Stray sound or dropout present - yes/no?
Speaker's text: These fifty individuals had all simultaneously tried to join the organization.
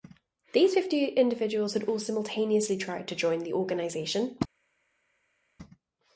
no